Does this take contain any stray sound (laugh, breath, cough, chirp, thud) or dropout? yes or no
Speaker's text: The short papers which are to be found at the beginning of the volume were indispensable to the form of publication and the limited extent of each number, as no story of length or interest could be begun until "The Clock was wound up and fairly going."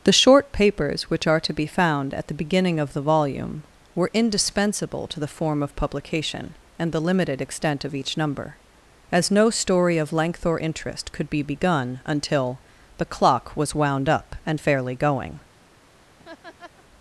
yes